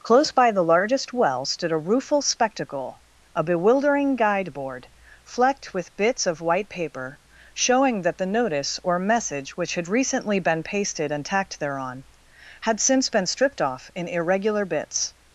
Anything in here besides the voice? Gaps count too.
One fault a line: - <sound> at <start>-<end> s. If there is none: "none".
none